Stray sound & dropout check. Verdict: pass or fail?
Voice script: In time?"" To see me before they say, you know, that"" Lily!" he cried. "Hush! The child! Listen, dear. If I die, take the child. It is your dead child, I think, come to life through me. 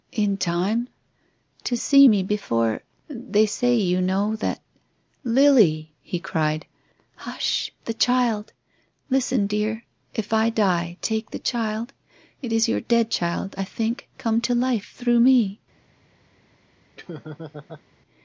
fail